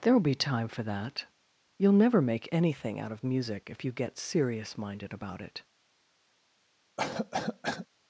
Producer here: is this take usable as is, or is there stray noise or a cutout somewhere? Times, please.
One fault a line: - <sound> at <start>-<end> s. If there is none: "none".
- cough at 7.0-7.9 s